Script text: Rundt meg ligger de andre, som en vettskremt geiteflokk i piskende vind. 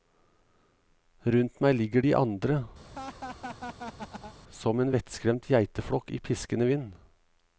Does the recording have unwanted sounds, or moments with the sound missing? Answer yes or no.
yes